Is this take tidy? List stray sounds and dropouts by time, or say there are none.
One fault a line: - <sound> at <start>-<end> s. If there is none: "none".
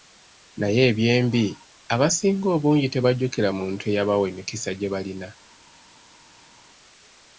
none